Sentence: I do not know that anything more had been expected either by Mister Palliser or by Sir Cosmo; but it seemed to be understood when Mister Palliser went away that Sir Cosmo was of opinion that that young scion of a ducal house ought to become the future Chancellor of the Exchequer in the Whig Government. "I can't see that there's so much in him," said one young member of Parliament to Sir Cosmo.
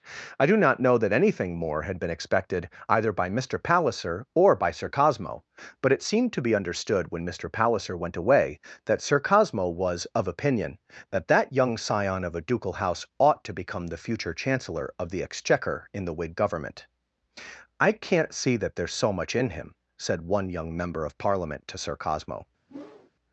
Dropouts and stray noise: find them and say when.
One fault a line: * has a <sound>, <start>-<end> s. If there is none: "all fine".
* has a whoosh, 22.7-23.1 s